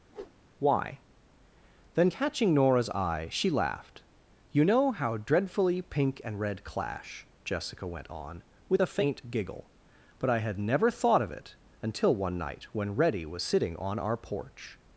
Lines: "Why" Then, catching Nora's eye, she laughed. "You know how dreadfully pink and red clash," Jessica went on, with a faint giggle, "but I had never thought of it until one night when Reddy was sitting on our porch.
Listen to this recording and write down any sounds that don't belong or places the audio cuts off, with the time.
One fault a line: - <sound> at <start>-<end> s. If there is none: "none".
- whoosh at 0.1-0.4 s